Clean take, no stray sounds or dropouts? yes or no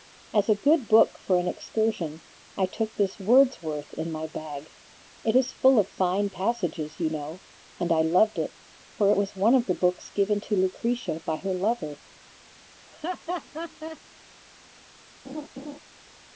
no